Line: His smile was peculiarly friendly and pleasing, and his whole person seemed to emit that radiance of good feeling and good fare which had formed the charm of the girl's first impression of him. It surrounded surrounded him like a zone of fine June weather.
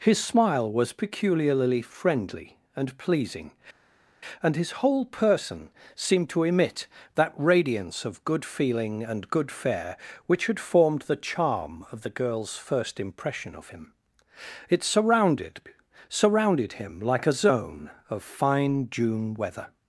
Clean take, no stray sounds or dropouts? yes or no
yes